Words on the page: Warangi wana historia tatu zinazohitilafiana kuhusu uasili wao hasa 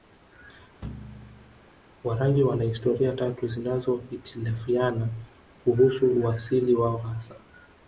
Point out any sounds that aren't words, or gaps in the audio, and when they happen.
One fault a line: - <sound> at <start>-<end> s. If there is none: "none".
- thud at 0.8-1.7 s